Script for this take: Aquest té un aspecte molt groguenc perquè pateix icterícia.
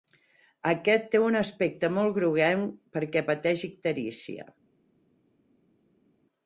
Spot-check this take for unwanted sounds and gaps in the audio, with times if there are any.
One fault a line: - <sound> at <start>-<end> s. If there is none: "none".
none